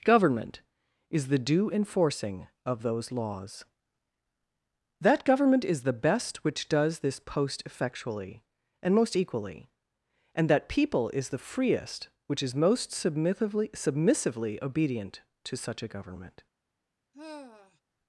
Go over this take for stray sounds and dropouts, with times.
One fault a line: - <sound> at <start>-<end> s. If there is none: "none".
- sigh at 17.1-17.8 s